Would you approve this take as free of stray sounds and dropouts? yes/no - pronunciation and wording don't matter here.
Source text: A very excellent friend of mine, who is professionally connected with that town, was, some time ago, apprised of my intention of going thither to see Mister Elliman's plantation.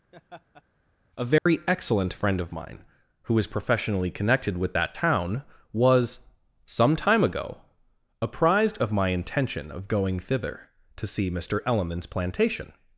no